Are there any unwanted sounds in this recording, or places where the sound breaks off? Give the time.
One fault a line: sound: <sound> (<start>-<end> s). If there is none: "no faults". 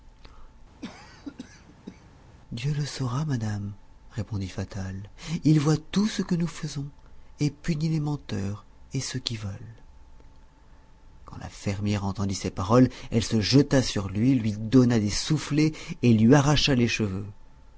sound: cough (0.8-2.1 s)